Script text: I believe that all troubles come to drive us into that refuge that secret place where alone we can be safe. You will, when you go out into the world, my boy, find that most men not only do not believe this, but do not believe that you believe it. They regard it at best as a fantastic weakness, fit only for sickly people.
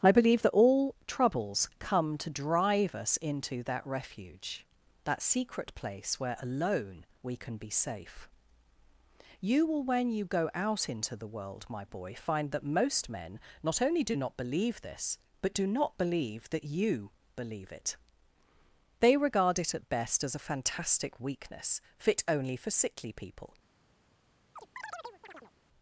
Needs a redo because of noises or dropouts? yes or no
yes